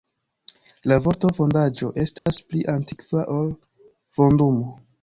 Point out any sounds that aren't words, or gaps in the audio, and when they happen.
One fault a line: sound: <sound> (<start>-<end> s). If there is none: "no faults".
sound: dropout (2.2-2.3 s)